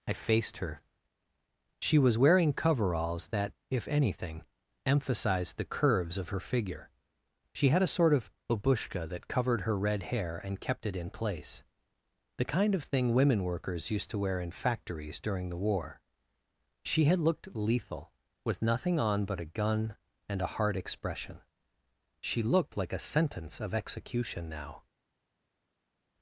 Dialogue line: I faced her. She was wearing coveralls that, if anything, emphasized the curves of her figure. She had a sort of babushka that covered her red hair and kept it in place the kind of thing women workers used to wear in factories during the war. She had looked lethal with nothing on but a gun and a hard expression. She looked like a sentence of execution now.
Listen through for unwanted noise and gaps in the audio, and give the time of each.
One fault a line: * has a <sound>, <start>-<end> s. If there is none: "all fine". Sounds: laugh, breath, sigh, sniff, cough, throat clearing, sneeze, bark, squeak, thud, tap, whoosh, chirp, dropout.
all fine